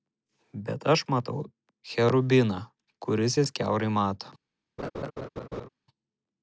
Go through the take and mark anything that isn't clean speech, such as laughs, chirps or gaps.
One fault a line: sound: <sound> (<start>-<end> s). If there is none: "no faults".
sound: laugh (4.8-5.7 s)